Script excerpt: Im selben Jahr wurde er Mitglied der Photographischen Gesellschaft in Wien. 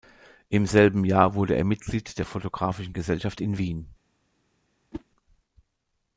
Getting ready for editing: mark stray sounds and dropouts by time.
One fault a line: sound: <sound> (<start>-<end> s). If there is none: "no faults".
sound: whoosh (4.9-5.0 s)